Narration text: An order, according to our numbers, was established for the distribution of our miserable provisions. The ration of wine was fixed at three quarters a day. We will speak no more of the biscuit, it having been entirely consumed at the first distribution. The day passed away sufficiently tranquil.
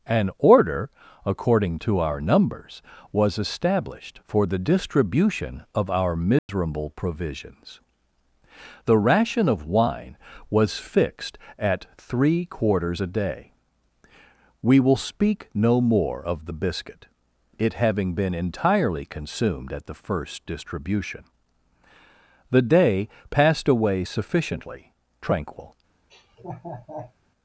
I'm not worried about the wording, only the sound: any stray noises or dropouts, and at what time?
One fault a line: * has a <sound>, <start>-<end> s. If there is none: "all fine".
* has a dropout, 6.4-6.5 s
* has a laugh, 26.1-27.1 s